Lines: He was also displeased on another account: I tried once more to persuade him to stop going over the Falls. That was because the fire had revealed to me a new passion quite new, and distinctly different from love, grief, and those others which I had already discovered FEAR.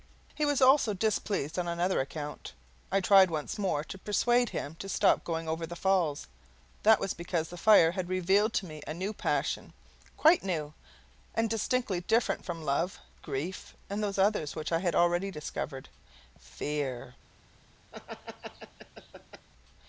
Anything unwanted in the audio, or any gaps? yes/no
yes